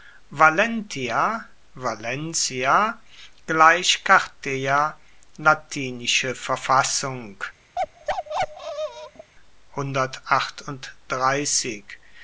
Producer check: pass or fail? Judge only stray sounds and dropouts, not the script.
fail